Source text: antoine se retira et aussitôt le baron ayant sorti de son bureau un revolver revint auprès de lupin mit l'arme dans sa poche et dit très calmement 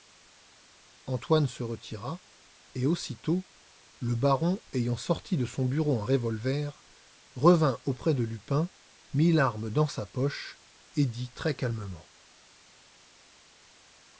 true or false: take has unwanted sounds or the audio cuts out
false